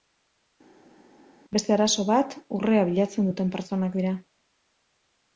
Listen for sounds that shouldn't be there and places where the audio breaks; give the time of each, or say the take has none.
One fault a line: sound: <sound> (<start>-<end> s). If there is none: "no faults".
no faults